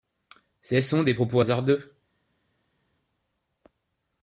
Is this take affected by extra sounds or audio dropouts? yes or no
no